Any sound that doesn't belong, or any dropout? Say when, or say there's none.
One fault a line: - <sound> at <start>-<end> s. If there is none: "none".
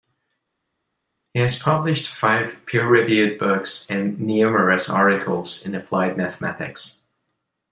none